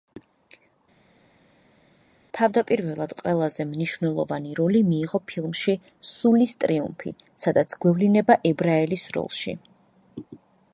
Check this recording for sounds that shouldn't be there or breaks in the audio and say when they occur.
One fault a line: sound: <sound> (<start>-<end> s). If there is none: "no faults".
no faults